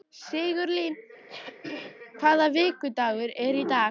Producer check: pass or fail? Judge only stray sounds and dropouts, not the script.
fail